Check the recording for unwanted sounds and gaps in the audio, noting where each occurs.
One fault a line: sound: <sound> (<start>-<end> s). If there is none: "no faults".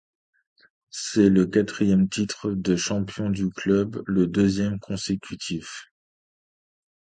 no faults